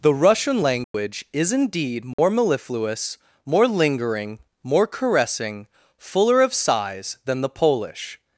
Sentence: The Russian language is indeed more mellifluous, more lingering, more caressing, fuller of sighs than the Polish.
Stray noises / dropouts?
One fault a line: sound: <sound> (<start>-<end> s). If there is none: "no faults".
sound: dropout (0.8-0.9 s)
sound: dropout (2.1-2.2 s)